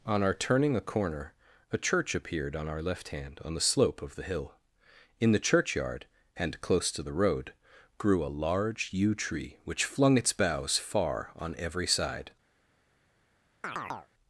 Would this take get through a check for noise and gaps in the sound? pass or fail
fail